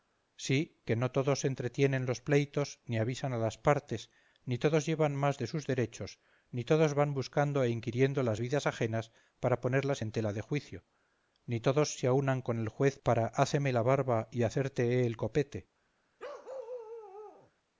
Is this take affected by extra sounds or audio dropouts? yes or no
yes